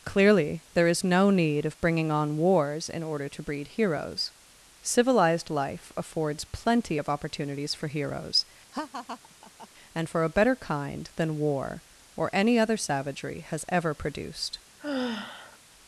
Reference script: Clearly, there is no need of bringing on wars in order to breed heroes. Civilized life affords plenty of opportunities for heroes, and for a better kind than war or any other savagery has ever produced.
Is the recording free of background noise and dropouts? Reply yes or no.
no